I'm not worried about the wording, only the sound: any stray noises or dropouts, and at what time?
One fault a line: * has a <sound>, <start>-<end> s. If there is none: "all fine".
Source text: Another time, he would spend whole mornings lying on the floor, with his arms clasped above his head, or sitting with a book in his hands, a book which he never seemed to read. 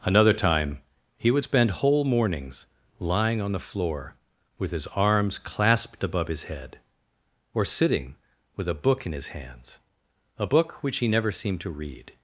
all fine